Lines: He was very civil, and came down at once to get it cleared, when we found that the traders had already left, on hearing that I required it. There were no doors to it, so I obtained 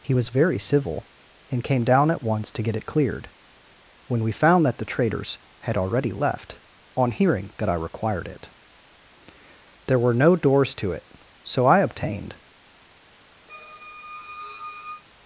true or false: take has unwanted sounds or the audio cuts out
true